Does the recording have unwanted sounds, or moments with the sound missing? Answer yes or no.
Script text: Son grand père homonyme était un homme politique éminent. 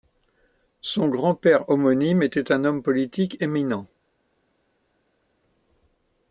no